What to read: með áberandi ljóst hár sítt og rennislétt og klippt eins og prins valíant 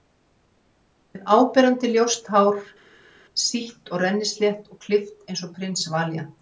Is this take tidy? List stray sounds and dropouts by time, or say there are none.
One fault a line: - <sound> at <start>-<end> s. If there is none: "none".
none